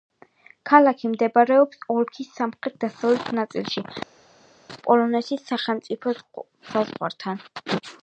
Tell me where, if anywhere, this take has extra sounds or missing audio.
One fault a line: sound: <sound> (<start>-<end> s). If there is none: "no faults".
no faults